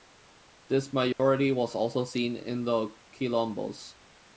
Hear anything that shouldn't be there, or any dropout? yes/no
yes